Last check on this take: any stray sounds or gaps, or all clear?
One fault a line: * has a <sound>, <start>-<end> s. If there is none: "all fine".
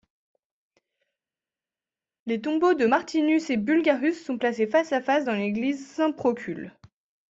all fine